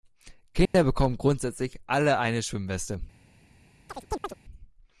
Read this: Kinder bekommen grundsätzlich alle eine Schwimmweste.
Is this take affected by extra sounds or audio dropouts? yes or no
yes